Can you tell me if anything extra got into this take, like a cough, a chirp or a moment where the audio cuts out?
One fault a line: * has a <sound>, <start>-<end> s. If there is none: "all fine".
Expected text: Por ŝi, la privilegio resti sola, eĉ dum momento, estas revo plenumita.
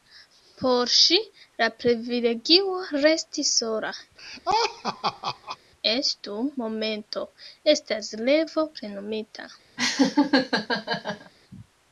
* has a laugh, 4.2-5.6 s
* has a laugh, 9.8-11.3 s